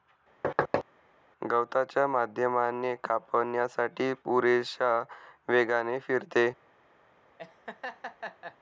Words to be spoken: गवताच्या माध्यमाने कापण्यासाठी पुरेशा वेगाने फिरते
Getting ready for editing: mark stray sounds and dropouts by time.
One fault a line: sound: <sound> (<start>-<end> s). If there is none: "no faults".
sound: thud (0.4-0.8 s)
sound: laugh (7.4-8.6 s)